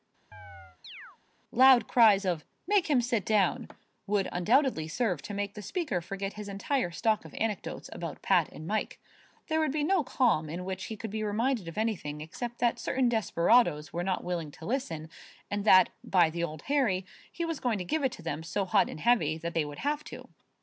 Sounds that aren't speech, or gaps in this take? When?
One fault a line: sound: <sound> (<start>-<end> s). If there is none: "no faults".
sound: chirp (0.3-1.2 s)